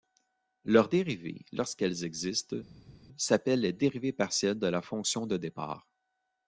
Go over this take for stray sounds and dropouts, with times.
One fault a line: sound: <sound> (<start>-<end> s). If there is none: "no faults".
no faults